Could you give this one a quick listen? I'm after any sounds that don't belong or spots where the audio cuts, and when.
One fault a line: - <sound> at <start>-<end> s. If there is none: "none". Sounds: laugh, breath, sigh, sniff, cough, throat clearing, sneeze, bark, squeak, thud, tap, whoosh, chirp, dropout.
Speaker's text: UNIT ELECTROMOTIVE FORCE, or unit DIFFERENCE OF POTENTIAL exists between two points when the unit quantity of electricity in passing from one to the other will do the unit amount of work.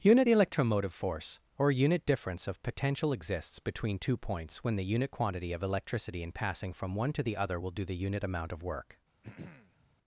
- throat clearing at 9.2-10.0 s